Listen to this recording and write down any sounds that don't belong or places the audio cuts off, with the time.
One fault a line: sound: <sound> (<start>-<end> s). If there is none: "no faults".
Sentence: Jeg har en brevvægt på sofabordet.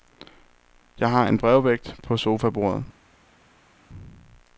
no faults